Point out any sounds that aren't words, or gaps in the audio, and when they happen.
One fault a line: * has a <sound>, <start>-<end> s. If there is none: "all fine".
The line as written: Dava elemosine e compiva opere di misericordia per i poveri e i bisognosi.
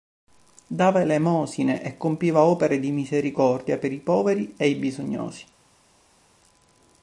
all fine